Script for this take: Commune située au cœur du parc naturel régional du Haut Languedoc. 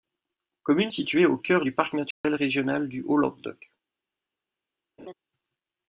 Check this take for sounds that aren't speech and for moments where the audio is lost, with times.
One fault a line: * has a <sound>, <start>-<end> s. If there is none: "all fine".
* has a dropout, 2.1-2.2 s
* has a laugh, 5.0-5.1 s